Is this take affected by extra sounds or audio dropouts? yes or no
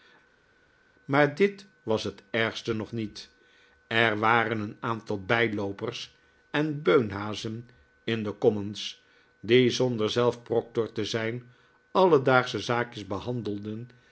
no